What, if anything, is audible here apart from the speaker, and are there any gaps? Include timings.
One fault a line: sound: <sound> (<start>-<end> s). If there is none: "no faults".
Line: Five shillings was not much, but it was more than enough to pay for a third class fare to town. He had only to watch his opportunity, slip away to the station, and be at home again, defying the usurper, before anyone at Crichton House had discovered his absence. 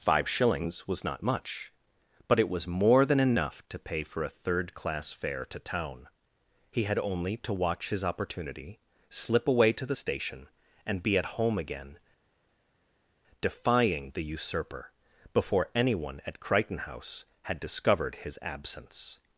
no faults